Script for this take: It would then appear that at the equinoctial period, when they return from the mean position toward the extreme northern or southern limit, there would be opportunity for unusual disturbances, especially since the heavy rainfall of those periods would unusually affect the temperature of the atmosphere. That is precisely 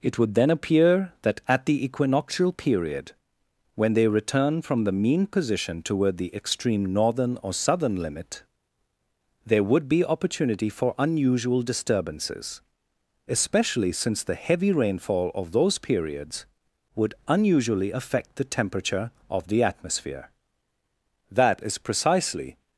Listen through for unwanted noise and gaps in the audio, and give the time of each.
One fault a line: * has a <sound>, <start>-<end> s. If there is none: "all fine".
all fine